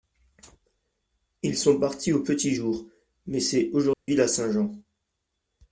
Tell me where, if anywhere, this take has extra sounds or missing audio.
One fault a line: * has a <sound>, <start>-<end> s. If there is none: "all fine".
* has a dropout, 3.9-4.1 s